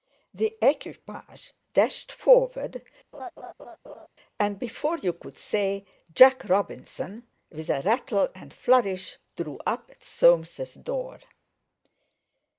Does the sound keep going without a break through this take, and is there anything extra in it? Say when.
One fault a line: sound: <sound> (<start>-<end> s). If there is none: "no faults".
sound: laugh (3.1-4.1 s)